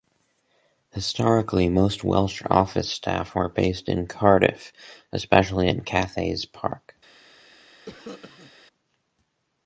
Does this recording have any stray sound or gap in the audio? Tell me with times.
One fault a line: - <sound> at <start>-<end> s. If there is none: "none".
- cough at 7.9-8.5 s